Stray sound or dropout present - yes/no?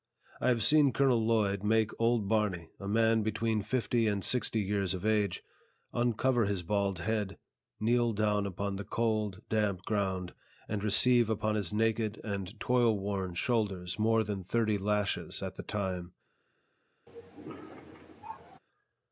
yes